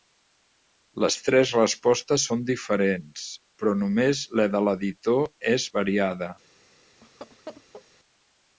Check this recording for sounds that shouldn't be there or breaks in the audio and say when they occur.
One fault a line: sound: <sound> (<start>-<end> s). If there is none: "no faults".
sound: laugh (7.0-7.9 s)